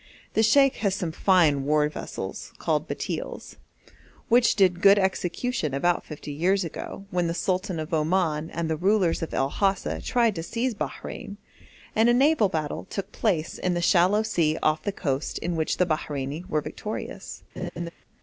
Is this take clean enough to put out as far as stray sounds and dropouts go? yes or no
no